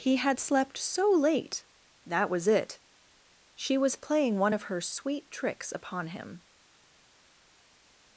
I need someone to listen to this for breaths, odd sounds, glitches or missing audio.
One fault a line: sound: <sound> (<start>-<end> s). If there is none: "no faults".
no faults